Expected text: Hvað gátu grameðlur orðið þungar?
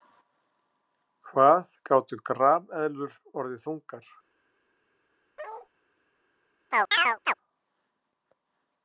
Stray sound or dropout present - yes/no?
yes